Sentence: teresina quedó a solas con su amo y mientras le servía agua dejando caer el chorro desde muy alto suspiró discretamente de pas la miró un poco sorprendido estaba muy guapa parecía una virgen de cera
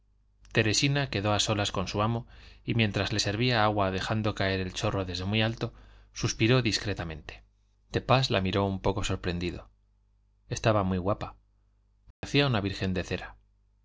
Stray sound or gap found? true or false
true